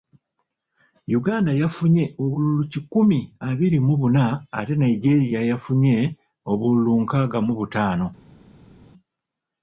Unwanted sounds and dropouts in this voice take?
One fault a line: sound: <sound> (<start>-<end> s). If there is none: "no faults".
no faults